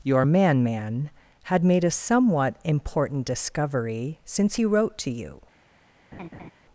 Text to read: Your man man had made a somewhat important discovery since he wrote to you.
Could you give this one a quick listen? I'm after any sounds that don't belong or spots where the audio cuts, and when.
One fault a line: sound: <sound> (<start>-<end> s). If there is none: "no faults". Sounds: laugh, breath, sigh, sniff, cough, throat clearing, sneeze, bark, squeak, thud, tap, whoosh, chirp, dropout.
sound: laugh (6.1-6.5 s)